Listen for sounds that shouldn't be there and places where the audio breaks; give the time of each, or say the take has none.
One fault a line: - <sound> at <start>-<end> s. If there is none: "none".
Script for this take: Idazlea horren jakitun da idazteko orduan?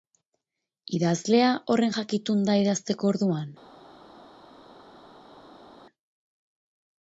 none